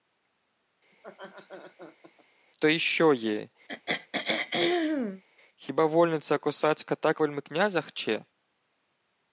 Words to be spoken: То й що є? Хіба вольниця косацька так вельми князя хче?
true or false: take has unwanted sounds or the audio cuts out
true